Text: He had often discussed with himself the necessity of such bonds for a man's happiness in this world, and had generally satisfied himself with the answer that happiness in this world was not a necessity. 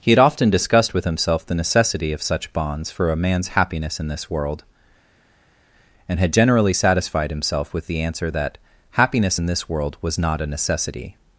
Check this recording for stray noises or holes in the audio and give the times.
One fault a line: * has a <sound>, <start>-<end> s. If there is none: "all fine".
all fine